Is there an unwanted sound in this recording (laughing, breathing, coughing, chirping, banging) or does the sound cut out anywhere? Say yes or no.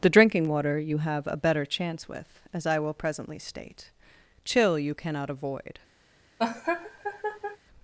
yes